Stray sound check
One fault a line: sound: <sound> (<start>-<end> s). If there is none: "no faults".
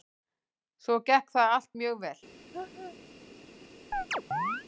sound: laugh (2.5-3.0 s)
sound: chirp (3.9-4.6 s)